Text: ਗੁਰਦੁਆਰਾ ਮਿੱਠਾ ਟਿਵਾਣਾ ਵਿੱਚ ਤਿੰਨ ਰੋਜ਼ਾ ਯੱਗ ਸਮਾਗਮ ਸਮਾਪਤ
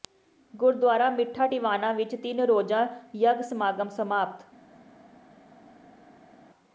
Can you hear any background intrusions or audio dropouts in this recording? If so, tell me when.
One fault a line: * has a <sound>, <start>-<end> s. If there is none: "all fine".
all fine